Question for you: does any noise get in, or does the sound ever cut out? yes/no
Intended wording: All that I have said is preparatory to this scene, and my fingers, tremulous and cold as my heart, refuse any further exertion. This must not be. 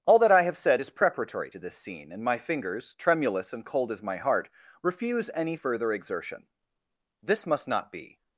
no